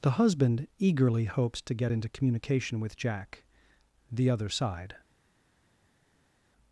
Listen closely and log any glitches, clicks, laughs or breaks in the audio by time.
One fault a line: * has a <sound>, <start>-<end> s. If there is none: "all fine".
all fine